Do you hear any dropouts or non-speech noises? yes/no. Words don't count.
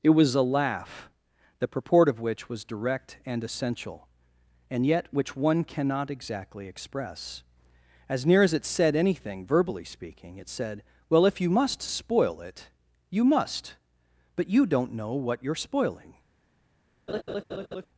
yes